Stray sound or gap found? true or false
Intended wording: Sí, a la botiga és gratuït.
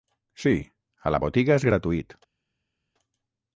false